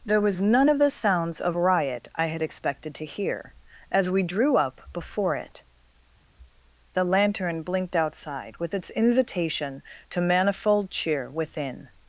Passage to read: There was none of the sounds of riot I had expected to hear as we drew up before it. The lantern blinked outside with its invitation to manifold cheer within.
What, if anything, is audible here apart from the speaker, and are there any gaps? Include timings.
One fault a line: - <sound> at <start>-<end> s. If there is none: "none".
none